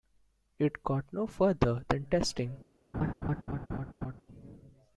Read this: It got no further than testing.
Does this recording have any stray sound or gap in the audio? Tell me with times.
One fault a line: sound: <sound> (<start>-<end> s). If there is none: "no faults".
sound: laugh (2.9-4.2 s)